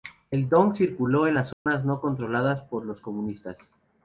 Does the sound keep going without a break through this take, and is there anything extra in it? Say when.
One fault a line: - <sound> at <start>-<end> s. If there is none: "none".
- dropout at 1.5-1.7 s